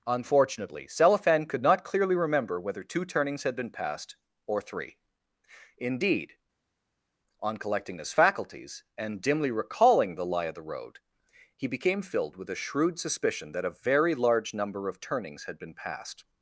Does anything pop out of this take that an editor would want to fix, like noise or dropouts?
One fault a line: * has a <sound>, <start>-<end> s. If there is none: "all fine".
all fine